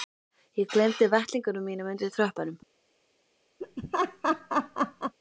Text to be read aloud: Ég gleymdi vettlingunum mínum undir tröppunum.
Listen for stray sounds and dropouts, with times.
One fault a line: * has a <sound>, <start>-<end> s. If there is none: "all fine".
* has a laugh, 3.6-5.1 s